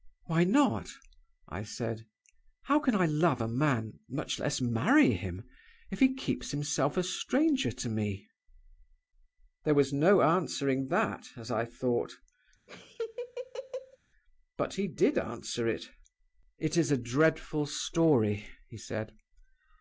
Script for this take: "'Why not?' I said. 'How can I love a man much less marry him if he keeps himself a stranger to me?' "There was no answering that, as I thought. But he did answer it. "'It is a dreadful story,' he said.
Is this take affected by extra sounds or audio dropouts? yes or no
yes